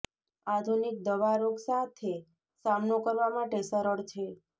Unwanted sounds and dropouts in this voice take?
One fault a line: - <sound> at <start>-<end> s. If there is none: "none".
none